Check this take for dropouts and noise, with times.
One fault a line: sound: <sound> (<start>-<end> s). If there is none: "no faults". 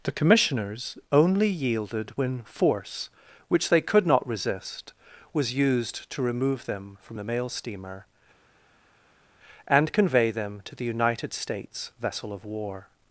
no faults